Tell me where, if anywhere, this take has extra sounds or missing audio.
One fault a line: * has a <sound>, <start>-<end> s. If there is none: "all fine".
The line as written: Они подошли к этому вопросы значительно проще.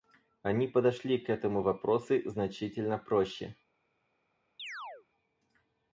* has a chirp, 4.6-5.1 s